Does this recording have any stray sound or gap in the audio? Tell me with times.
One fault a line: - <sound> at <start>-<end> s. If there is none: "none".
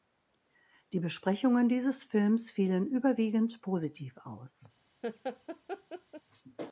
- laugh at 5.0-6.2 s